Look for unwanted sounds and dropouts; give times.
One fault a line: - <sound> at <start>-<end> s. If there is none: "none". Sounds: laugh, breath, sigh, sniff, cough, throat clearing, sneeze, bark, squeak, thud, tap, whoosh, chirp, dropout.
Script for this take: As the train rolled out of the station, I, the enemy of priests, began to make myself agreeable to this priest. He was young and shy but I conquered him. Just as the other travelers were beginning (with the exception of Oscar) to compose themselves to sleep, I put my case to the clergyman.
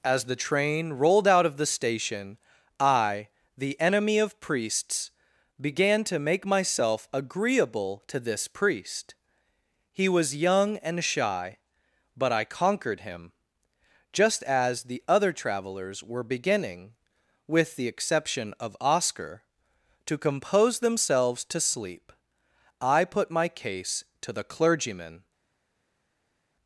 none